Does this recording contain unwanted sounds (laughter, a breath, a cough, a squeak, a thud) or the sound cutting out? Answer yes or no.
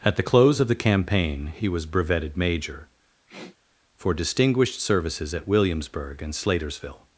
yes